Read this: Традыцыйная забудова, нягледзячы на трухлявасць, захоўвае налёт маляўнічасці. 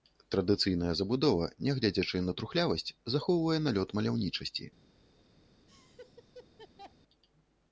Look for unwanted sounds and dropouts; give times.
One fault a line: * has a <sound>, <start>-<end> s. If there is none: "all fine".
* has a laugh, 5.7-6.9 s